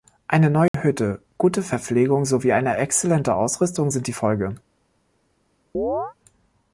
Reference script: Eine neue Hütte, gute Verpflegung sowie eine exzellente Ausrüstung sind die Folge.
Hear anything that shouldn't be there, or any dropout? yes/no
yes